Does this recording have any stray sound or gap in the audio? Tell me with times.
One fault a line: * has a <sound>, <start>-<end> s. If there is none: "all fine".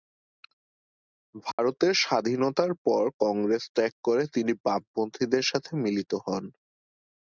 * has a dropout, 1.5-1.6 s